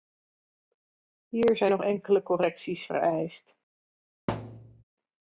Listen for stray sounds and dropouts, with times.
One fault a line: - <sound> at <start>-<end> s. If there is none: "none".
- thud at 4.3-4.8 s